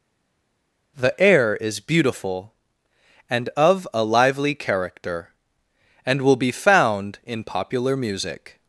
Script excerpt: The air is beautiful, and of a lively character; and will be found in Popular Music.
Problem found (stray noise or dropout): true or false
false